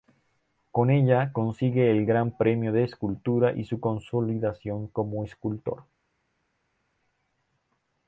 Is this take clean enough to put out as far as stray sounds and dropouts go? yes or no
yes